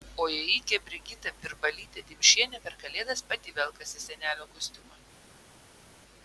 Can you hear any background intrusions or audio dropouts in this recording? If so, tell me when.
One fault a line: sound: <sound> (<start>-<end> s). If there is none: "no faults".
no faults